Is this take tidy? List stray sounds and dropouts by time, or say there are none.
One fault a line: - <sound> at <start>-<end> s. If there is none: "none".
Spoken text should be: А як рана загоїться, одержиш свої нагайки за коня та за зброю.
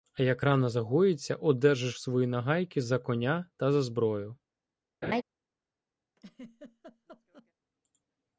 - laugh at 5.0-5.2 s
- laugh at 6.2-7.5 s